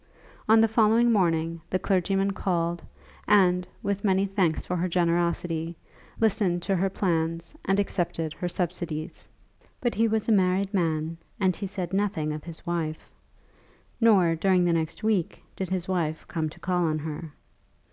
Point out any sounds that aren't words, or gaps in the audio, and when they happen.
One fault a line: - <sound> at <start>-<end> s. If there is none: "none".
none